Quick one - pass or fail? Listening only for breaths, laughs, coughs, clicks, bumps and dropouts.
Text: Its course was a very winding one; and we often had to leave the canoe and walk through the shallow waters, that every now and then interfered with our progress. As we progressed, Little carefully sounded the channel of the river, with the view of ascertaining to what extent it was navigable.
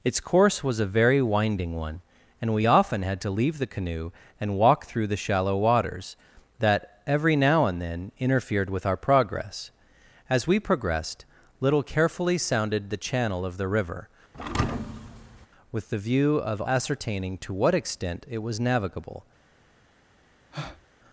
fail